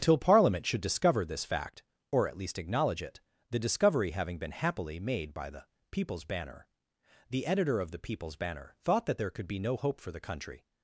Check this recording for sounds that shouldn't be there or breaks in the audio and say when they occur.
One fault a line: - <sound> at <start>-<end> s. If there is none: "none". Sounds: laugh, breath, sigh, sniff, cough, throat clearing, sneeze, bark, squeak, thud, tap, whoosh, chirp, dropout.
none